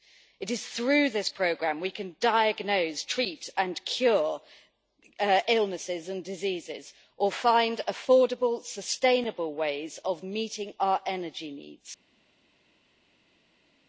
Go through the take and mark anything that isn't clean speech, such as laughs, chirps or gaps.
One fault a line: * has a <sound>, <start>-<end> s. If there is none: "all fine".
all fine